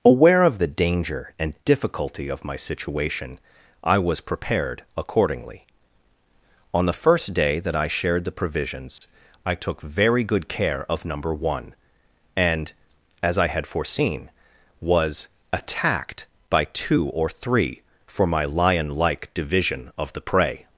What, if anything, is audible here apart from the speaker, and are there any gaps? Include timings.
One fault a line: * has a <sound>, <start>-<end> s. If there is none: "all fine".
* has a dropout, 9.0-9.0 s